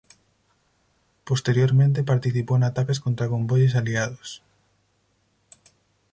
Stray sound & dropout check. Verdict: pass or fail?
pass